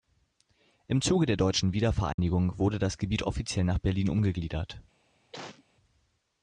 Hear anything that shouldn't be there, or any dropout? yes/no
yes